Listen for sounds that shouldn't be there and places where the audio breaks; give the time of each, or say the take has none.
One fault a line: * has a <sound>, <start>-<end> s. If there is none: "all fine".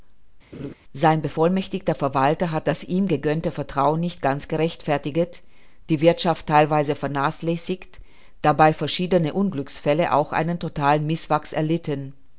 * has a laugh, 0.5-0.7 s